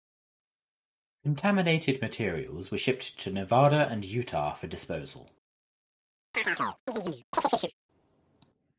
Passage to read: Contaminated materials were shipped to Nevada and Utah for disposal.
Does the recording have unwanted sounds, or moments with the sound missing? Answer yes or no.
yes